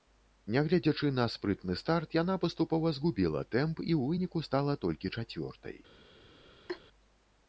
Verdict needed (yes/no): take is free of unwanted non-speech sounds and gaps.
no